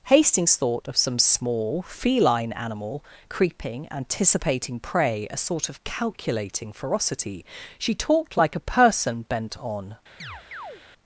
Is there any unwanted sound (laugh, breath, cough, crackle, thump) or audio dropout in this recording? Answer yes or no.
yes